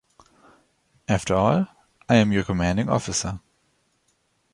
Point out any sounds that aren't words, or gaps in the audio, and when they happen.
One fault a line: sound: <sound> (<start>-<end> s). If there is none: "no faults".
no faults